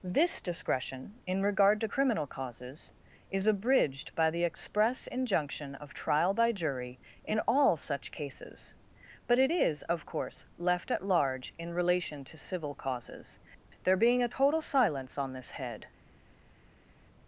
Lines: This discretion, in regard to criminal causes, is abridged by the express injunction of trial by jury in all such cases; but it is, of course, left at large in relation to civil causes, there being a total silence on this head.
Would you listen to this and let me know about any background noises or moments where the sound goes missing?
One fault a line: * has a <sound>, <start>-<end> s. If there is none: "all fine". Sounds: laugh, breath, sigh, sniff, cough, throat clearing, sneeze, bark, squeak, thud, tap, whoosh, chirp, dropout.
all fine